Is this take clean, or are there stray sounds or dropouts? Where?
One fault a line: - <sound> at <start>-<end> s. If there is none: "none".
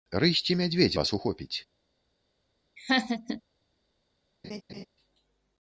- laugh at 2.8-3.4 s
- laugh at 4.4-4.9 s